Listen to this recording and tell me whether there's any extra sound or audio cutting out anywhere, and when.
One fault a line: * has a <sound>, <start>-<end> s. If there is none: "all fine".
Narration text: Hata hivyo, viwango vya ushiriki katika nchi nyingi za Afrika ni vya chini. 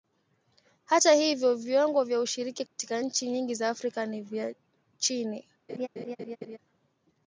* has a dropout, 2.7-2.8 s
* has a laugh, 5.7-6.6 s